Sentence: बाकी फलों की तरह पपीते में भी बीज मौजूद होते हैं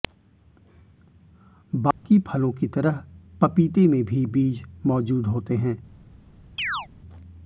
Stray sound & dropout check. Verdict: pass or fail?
fail